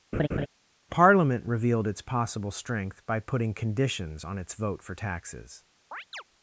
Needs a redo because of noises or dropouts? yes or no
yes